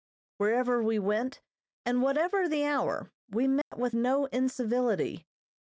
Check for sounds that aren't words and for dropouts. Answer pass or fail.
fail